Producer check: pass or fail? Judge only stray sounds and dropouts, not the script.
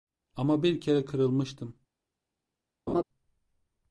fail